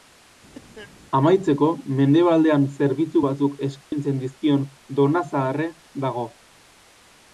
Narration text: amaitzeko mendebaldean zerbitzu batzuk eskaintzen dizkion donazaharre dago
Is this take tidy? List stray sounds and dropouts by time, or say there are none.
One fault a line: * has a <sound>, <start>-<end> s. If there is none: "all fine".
* has a cough, 0.5-0.9 s
* has a dropout, 3.8-3.9 s